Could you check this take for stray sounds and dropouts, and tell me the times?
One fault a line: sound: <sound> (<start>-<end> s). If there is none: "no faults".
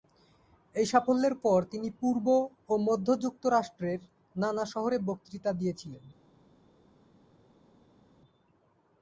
no faults